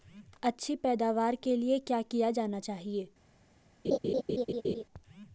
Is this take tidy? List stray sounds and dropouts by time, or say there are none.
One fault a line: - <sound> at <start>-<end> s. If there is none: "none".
- laugh at 3.8-4.8 s